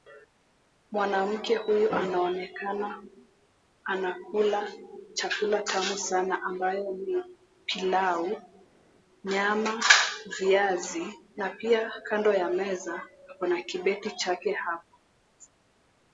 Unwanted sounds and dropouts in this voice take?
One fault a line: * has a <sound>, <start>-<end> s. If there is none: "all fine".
all fine